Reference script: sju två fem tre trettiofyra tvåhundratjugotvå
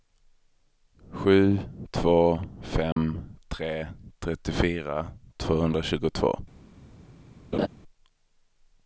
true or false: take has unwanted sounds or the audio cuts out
true